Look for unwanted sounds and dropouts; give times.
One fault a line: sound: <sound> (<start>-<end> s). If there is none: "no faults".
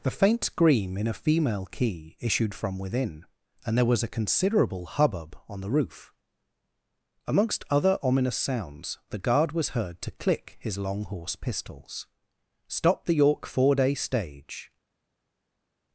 no faults